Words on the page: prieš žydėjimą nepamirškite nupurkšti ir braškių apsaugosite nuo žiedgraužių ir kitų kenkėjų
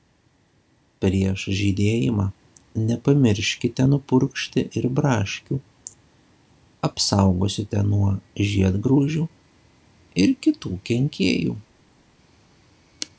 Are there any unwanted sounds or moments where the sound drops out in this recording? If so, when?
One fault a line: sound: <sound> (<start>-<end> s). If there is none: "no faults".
no faults